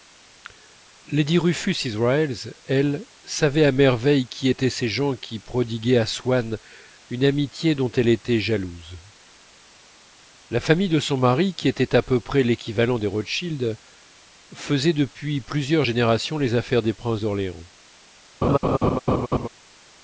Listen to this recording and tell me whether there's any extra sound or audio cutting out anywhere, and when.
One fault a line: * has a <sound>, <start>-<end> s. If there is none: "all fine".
* has a laugh, 18.4-19.5 s